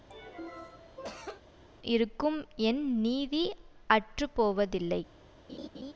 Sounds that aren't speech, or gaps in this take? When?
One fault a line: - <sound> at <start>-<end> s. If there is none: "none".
- cough at 0.1-1.4 s
- laugh at 5.5-5.9 s